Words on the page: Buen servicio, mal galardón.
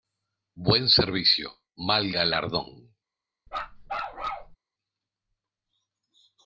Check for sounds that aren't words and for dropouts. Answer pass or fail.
fail